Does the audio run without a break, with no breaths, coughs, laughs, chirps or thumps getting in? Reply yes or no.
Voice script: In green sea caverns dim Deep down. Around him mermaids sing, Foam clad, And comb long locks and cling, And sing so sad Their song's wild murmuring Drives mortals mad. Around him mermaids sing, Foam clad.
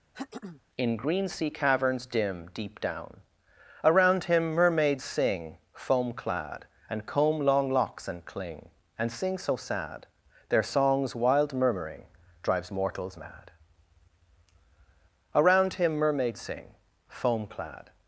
no